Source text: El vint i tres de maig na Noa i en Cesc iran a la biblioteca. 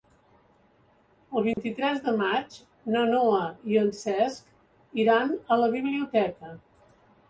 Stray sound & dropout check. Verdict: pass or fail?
fail